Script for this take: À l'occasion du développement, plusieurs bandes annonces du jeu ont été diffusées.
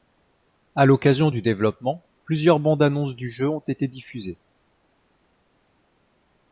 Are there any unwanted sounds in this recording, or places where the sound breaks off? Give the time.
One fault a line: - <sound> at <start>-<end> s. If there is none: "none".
none